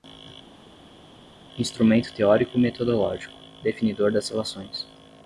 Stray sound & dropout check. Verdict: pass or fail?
pass